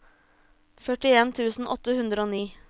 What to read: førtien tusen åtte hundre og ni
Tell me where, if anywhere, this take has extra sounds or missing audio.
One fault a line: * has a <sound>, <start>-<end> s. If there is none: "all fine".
all fine